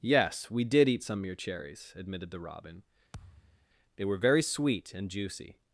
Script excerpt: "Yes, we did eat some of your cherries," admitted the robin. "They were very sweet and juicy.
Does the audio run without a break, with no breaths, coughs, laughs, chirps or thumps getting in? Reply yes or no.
no